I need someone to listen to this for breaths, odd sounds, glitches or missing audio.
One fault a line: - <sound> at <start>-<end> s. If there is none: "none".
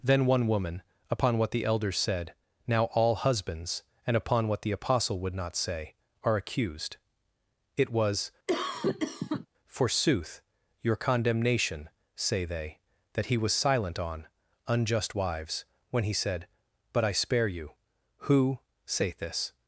- cough at 8.5-9.5 s